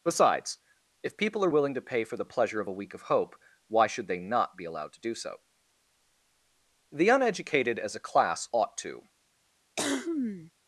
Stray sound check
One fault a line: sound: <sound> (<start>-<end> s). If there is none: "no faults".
sound: cough (9.8-10.5 s)